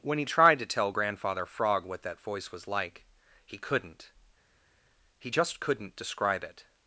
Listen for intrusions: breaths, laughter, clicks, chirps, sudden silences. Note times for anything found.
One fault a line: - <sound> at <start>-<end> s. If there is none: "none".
none